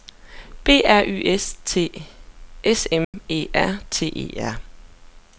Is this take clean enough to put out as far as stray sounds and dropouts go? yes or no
no